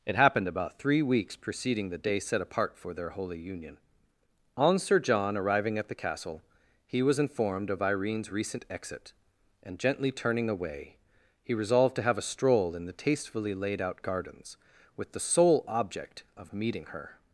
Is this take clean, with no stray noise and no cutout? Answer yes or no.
yes